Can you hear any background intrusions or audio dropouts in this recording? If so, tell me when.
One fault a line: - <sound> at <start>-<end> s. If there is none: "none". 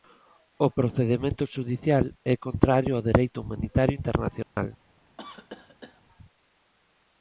- dropout at 4.4-4.6 s
- cough at 5.2-6.0 s